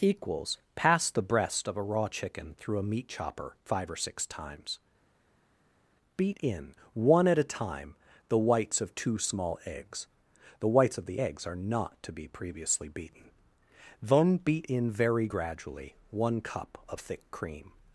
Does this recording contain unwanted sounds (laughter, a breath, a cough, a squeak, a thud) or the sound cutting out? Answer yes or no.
no